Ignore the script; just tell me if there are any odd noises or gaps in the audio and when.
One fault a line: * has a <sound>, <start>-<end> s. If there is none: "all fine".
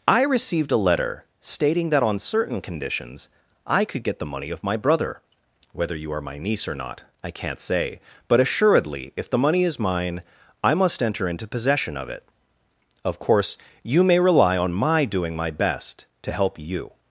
all fine